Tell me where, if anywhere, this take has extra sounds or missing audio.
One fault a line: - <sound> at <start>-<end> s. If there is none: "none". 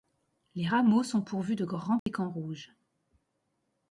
- dropout at 2.0-2.1 s